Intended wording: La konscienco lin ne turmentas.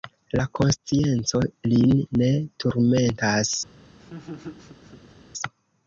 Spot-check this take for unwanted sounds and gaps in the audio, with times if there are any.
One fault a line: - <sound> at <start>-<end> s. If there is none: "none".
- laugh at 4.0-5.1 s